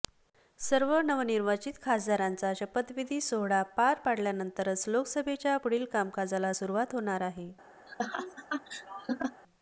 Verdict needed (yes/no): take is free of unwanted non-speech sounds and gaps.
no